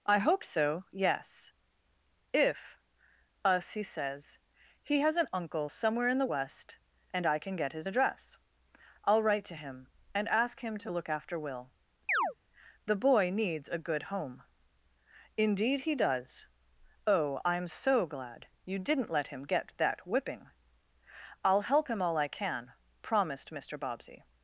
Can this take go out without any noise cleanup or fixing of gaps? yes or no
no